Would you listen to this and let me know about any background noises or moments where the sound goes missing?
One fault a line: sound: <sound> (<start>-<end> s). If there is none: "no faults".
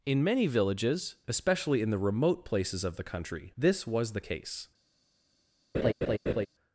sound: laugh (5.7-6.5 s)